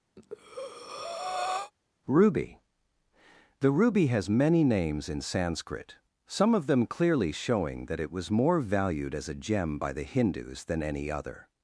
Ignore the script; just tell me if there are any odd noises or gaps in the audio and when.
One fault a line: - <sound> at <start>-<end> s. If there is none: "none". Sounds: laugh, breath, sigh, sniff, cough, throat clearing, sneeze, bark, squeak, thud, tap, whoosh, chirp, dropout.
- breath at 0.2-1.7 s